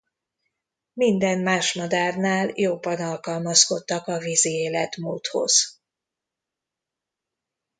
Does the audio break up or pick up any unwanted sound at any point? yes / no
no